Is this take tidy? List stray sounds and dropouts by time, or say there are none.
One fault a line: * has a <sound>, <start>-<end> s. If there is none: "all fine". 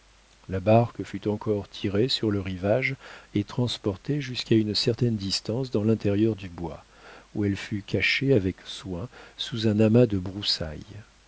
all fine